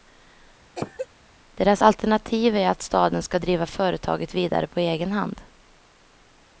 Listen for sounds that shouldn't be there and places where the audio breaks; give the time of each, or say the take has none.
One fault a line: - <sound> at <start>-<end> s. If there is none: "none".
- cough at 0.8-1.1 s